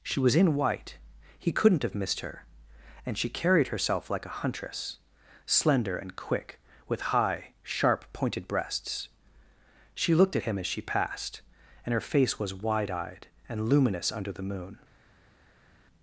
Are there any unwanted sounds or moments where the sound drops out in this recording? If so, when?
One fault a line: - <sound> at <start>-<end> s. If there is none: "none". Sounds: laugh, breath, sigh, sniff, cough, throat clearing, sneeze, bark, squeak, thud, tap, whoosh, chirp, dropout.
none